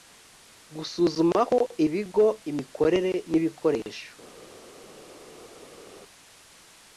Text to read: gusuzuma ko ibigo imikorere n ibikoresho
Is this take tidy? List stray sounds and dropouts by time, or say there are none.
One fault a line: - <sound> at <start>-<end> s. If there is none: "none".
none